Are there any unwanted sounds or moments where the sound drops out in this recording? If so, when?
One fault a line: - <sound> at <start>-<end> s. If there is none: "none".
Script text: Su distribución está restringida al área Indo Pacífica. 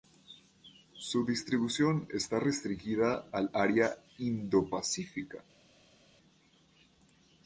none